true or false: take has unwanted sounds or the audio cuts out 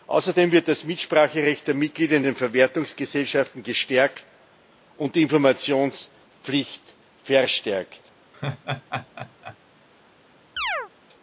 true